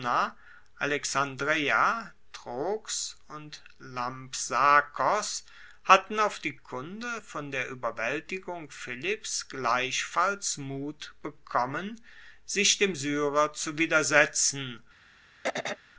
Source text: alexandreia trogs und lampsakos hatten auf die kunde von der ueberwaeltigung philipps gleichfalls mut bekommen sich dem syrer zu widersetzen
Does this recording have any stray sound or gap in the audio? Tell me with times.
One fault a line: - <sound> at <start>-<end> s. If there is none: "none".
- throat clearing at 15.4-15.8 s